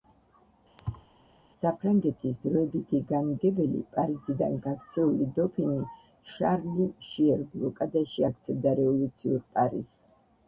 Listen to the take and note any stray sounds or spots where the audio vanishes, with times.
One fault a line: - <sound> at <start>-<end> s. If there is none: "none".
- thud at 0.8-1.1 s